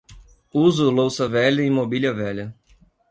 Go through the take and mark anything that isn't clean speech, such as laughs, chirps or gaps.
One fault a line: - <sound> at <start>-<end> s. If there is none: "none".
none